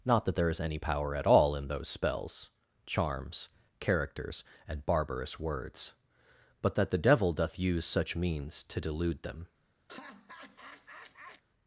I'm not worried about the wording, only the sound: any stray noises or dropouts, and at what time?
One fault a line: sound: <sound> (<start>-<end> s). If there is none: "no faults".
sound: laugh (9.9-11.4 s)